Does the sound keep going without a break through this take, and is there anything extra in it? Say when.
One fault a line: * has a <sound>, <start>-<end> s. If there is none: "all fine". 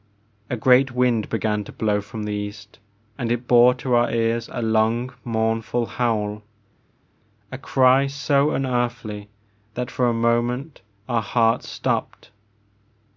all fine